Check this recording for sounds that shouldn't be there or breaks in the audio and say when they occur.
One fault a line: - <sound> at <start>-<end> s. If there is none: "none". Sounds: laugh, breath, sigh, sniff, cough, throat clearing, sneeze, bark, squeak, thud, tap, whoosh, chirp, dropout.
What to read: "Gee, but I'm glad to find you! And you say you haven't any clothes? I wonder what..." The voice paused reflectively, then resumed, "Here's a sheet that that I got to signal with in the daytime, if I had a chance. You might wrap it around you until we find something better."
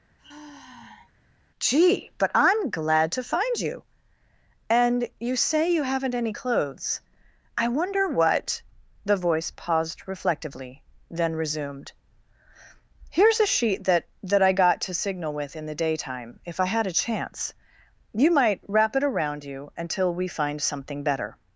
- sigh at 0.2-1.1 s